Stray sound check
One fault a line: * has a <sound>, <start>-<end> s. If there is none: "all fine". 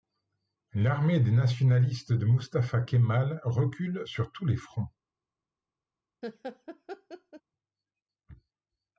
* has a laugh, 6.2-7.4 s